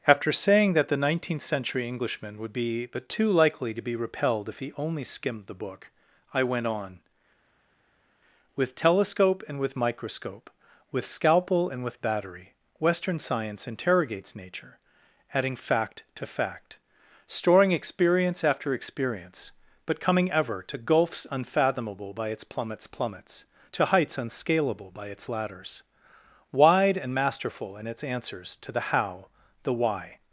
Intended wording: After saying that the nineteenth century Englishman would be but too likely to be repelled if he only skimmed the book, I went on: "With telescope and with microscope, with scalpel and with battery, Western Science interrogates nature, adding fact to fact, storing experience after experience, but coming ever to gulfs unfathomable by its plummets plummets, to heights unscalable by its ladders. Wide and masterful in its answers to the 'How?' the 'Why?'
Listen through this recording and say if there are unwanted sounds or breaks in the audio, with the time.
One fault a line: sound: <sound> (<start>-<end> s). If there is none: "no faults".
no faults